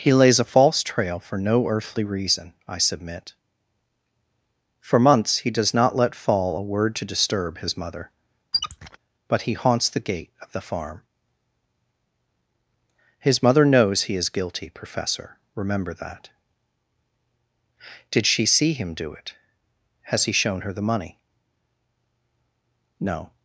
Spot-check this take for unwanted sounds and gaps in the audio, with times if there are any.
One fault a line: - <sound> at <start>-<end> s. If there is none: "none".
- squeak at 8.5-9.0 s